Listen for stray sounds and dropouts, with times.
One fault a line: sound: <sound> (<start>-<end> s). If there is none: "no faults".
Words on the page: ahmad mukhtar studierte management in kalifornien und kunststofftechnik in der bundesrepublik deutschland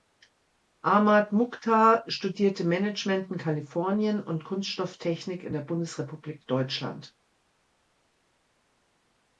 no faults